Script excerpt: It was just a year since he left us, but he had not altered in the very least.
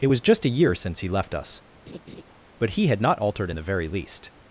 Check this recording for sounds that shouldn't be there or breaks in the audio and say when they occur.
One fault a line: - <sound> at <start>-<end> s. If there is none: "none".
- laugh at 1.9-2.2 s